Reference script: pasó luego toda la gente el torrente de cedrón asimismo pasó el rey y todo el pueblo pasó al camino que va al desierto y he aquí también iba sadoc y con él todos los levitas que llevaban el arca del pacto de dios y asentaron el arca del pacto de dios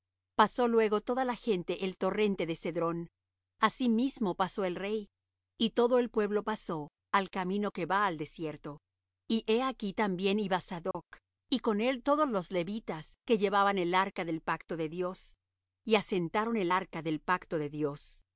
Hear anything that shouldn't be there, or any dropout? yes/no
yes